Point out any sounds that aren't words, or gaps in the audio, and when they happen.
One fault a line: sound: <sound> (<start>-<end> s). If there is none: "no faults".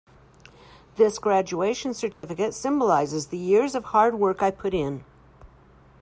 sound: dropout (2.1-2.2 s)